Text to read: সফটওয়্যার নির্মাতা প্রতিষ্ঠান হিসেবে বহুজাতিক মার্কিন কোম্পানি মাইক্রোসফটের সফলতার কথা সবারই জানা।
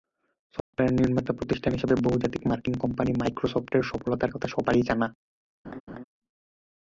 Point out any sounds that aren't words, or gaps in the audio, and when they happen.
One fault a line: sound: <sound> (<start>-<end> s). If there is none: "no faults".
sound: dropout (0.6-0.7 s)
sound: laugh (5.6-6.0 s)